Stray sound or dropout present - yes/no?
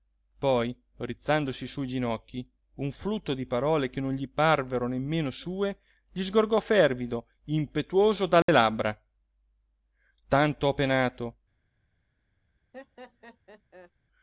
yes